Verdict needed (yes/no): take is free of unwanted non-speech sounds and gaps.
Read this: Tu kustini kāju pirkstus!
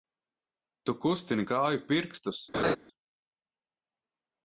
no